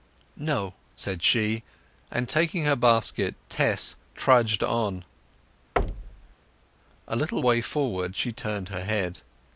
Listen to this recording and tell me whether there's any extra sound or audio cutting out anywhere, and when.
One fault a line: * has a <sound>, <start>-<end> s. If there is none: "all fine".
* has a thud, 5.8-6.3 s